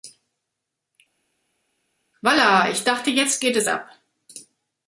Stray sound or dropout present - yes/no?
no